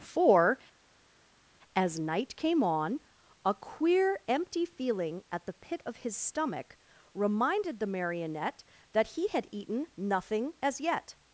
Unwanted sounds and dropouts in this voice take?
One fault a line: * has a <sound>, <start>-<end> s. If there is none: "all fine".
all fine